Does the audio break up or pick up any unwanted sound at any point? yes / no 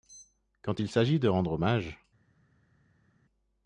no